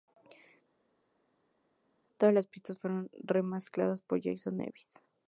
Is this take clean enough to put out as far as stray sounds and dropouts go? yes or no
yes